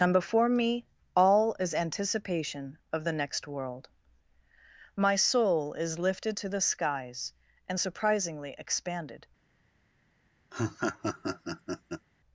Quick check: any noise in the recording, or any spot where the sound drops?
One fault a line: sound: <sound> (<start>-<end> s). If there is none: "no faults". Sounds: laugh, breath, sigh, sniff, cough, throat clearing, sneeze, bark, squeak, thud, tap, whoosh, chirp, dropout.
sound: laugh (10.5-12.1 s)